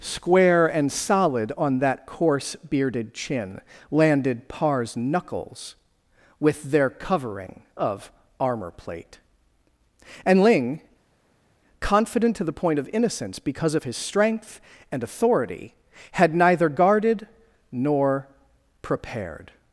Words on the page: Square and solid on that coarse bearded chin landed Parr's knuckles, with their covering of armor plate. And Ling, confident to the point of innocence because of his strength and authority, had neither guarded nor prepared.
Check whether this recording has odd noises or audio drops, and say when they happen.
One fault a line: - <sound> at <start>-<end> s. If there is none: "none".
none